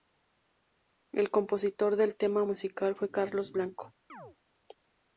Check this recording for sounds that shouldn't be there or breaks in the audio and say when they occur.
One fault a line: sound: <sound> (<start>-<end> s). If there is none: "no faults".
sound: chirp (4.1-4.4 s)